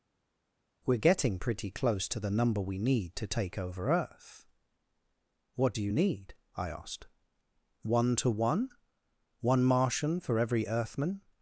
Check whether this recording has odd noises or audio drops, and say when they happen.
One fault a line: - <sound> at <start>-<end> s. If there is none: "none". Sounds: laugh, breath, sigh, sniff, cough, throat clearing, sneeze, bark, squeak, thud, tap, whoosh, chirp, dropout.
none